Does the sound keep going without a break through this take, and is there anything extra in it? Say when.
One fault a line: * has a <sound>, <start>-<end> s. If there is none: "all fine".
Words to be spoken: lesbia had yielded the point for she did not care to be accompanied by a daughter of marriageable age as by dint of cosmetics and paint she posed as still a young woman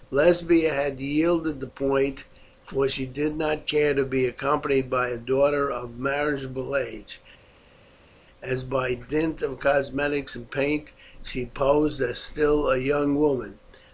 all fine